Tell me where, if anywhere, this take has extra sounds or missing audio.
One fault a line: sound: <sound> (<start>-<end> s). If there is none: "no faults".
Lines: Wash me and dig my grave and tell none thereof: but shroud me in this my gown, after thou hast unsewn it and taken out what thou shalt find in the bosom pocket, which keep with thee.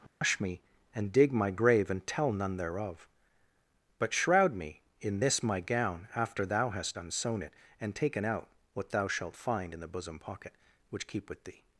sound: dropout (0.1-0.2 s)